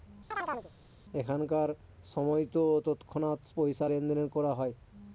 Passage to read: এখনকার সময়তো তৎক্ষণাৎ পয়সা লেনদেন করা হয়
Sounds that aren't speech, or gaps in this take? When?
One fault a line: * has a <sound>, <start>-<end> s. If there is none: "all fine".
* has a chirp, 0.3-0.7 s